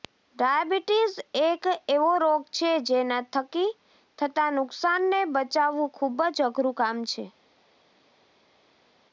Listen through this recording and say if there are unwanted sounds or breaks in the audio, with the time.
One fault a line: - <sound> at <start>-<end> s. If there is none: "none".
none